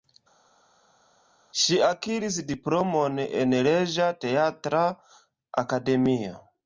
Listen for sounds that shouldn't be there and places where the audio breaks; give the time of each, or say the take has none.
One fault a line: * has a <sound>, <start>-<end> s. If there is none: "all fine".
all fine